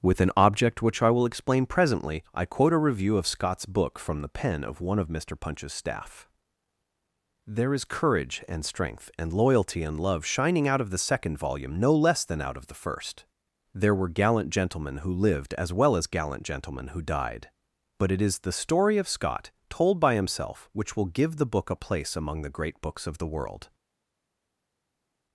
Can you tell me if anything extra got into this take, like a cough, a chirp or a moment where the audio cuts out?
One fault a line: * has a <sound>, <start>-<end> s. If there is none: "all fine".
all fine